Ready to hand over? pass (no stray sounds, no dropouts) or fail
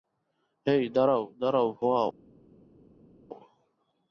pass